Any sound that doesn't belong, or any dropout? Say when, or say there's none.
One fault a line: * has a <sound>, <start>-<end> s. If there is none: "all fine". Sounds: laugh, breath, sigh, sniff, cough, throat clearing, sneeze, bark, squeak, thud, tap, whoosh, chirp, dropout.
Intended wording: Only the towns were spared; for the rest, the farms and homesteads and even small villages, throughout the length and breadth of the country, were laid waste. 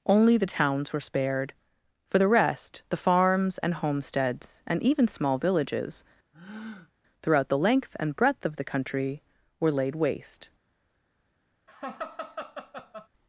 * has a breath, 6.3-6.9 s
* has a laugh, 11.7-13.1 s